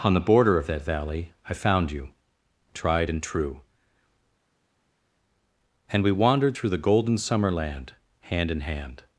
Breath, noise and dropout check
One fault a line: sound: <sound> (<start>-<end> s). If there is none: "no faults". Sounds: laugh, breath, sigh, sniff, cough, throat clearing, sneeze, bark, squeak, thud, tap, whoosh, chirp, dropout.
no faults